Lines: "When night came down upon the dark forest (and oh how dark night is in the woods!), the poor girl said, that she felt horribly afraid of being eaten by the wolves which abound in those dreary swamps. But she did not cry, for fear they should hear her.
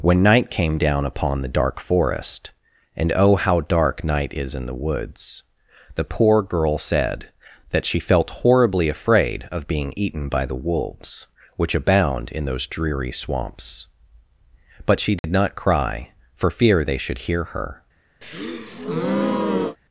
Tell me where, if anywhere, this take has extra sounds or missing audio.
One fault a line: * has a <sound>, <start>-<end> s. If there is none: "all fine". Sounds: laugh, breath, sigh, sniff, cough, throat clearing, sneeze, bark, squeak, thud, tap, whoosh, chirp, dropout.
* has a dropout, 15.2-15.2 s
* has a breath, 18.2-19.8 s